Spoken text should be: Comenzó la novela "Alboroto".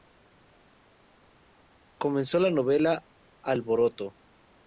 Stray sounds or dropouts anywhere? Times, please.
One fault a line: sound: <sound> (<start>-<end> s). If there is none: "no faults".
no faults